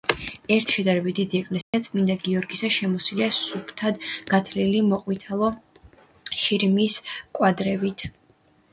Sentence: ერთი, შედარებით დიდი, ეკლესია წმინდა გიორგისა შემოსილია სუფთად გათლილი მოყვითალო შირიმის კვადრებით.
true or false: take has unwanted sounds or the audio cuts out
true